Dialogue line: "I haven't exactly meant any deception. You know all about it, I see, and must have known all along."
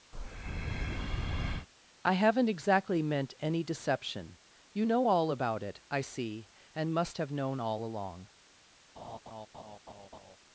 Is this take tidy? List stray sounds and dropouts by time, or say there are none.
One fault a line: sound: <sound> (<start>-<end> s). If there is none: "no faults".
sound: breath (0.1-1.7 s)
sound: laugh (9.0-10.4 s)